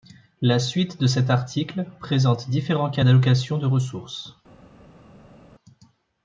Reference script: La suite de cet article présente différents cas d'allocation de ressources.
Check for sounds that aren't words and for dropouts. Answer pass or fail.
pass